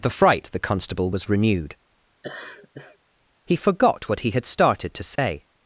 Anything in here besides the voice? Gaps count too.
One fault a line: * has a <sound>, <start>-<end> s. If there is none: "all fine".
* has a laugh, 2.2-3.0 s
* has a dropout, 5.2-5.2 s